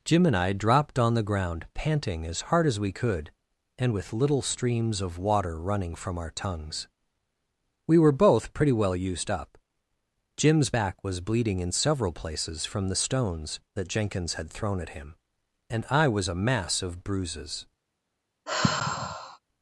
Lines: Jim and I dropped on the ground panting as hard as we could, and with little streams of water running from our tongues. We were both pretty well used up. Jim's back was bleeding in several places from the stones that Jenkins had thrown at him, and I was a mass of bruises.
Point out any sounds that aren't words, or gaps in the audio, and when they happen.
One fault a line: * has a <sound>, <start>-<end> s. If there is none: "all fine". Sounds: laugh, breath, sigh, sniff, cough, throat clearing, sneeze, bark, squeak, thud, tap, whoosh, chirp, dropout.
* has a sigh, 18.5-19.4 s